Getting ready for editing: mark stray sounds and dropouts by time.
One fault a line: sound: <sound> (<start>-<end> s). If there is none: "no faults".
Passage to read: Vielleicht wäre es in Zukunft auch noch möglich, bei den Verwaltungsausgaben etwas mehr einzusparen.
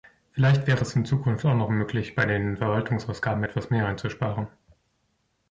no faults